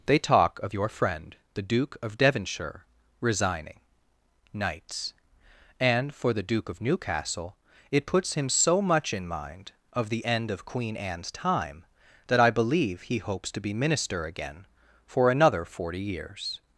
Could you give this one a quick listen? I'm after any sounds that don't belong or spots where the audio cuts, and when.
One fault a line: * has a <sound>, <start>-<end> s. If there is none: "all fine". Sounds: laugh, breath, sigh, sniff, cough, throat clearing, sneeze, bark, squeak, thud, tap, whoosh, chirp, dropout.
all fine